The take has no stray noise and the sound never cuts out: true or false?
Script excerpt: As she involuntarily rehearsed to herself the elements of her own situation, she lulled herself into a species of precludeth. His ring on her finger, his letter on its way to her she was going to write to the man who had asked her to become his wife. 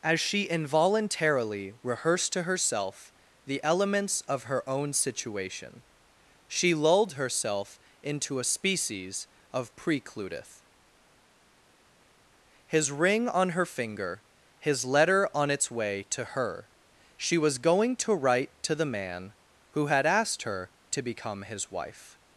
true